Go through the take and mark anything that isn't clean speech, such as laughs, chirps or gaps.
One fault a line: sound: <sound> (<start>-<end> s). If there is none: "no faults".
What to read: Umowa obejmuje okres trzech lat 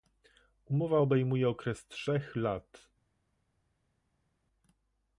no faults